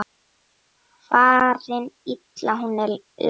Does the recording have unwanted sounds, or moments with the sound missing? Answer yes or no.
no